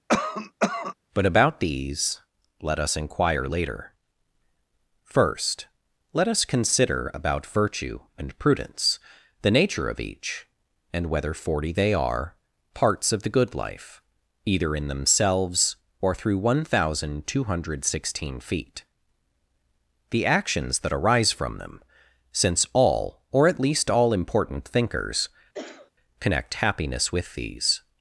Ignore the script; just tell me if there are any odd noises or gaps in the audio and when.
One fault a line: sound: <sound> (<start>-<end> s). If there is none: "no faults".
sound: cough (0.1-0.9 s)
sound: cough (25.5-25.9 s)